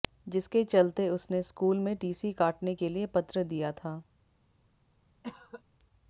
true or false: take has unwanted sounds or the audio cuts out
true